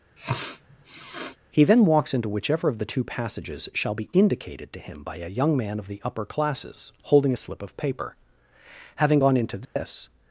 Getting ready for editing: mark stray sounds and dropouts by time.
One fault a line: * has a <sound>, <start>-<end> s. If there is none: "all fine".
* has a sniff, 0.2-1.4 s
* has a dropout, 9.6-9.8 s